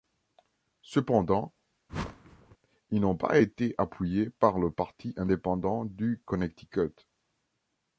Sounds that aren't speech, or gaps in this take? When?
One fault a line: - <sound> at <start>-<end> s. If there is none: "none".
- whoosh at 1.9-2.6 s